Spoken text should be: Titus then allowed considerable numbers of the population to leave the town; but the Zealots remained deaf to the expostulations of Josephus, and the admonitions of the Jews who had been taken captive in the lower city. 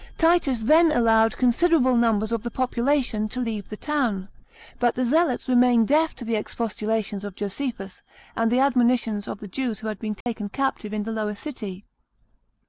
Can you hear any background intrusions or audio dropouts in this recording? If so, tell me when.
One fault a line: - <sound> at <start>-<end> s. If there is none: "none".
- dropout at 10.2-10.3 s